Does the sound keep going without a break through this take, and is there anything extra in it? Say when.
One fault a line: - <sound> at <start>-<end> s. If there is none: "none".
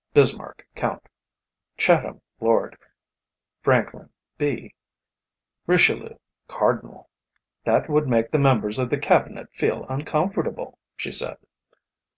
none